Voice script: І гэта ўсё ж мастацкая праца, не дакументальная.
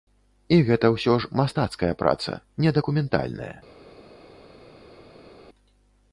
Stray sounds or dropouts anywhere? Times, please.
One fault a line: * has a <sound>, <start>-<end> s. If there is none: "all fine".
all fine